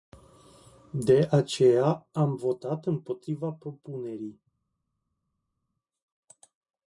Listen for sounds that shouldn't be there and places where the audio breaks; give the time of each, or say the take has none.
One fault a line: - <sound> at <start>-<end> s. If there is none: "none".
none